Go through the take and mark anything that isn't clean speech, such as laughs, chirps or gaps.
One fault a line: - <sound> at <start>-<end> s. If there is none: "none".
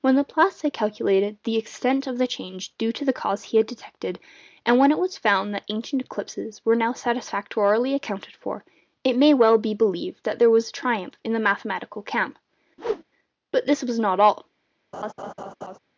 - whoosh at 12.8-13.0 s
- laugh at 14.9-15.8 s